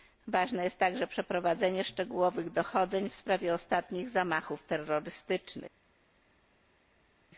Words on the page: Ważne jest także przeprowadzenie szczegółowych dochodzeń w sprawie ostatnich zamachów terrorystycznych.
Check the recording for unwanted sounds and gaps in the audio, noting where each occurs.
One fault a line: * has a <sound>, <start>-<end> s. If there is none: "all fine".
all fine